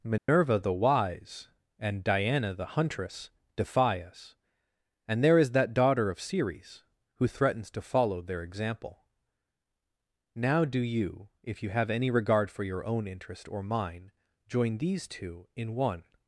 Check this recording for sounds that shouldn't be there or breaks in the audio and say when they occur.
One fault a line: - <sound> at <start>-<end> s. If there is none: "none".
- dropout at 0.2-0.3 s